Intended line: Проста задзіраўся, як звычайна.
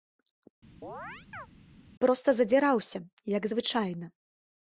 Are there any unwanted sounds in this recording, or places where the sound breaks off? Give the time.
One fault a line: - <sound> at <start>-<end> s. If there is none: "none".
- chirp at 0.8-1.5 s